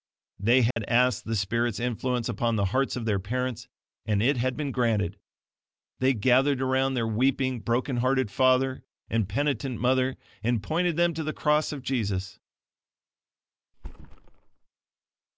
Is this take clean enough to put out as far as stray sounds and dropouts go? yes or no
no